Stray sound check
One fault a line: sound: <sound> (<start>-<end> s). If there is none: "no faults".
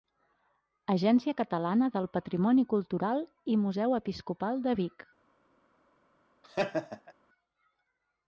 sound: laugh (6.4-7.1 s)